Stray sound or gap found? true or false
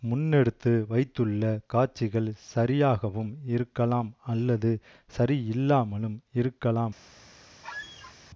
true